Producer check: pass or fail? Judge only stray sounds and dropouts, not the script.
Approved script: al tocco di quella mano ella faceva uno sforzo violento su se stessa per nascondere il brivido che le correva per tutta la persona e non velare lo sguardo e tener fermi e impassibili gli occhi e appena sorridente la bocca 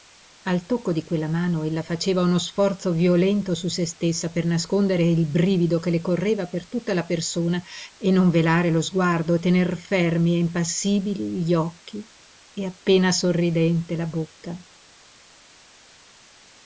pass